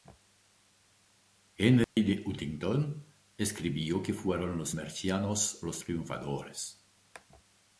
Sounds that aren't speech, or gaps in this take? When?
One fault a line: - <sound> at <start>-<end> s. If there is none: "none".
- dropout at 1.8-2.0 s